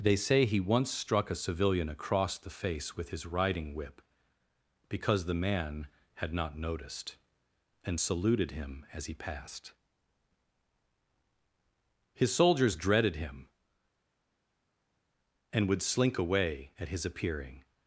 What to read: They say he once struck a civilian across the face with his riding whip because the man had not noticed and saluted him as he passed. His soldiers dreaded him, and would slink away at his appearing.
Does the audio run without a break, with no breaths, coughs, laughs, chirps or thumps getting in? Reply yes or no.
yes